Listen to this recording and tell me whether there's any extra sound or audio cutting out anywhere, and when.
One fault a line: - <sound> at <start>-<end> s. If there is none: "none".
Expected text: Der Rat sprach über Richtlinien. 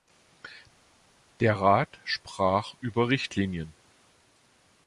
none